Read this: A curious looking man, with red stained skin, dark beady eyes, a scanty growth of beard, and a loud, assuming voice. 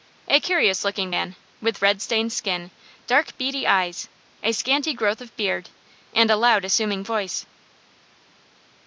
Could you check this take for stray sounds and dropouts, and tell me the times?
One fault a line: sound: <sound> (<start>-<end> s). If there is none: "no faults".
no faults